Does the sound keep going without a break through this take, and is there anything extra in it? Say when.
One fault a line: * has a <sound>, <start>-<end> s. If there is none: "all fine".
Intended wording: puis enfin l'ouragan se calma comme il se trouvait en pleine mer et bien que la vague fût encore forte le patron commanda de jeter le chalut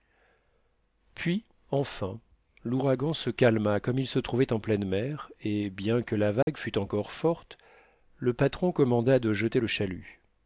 * has a dropout, 6.4-6.5 s